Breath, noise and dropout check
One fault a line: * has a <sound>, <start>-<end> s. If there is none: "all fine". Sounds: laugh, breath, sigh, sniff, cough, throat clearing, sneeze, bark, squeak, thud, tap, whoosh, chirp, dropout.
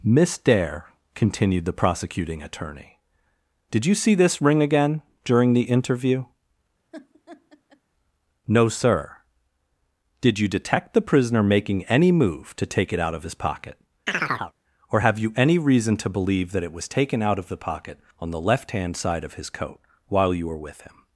* has a laugh, 6.9-7.8 s
* has a chirp, 14.1-14.5 s